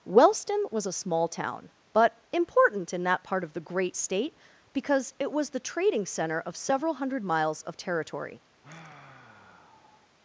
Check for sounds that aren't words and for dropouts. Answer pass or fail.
fail